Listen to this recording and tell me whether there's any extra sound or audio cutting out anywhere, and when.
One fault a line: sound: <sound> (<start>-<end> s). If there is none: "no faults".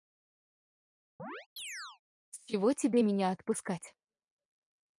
sound: chirp (1.2-2.0 s)